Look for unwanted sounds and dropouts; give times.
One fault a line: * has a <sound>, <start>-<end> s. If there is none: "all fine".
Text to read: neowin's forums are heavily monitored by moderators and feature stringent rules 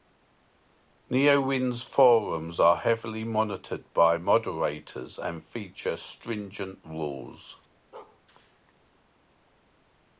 * has a bark, 7.9-8.2 s